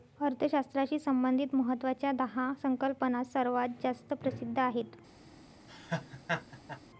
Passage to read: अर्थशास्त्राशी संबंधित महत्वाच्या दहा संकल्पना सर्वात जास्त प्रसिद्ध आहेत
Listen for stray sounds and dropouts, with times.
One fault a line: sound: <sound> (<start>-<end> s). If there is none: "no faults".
sound: laugh (5.7-6.8 s)